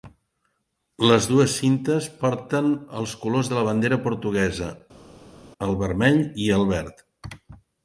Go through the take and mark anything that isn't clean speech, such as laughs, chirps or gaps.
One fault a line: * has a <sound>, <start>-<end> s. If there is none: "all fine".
all fine